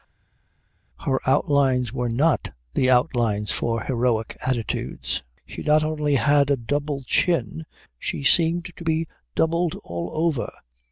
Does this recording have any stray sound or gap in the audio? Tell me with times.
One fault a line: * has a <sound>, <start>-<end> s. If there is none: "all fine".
all fine